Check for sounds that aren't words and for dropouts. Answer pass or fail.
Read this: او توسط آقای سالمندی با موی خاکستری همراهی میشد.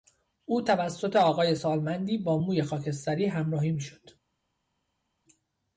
pass